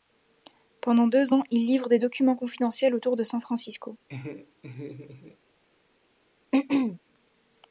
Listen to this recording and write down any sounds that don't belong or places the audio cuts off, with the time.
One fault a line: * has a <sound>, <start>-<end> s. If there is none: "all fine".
* has a laugh, 4.1-5.4 s
* has a throat clearing, 6.5-7.0 s